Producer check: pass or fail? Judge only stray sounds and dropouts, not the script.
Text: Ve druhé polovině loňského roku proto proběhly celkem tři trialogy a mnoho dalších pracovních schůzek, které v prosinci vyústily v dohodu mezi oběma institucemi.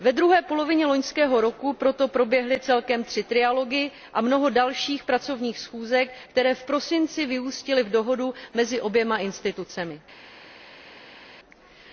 pass